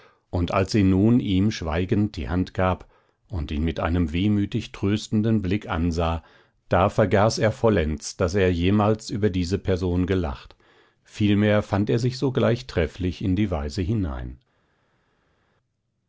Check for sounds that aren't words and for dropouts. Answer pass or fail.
pass